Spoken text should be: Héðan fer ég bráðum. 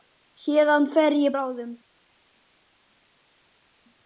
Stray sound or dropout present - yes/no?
no